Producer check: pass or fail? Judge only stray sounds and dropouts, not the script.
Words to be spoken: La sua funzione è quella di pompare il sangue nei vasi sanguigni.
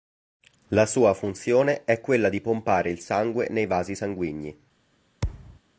fail